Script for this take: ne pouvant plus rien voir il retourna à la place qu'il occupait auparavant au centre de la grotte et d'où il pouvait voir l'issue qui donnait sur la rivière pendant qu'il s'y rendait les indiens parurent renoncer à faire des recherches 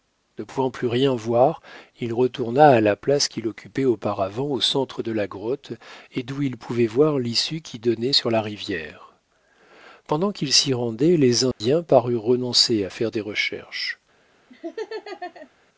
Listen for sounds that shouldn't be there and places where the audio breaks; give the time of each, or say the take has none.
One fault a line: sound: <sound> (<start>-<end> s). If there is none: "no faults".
sound: dropout (11.5-11.6 s)
sound: laugh (14.5-15.5 s)